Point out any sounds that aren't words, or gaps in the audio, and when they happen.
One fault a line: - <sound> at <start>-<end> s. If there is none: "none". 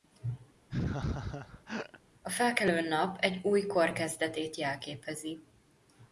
- laugh at 0.7-2.0 s